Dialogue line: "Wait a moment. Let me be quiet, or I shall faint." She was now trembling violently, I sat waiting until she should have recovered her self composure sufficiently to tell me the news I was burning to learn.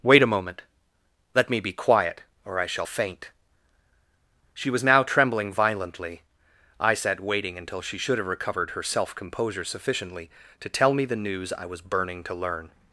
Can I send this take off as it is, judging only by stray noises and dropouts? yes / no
yes